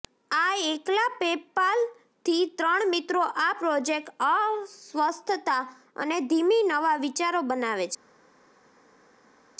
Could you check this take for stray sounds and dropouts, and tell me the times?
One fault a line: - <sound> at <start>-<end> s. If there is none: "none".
none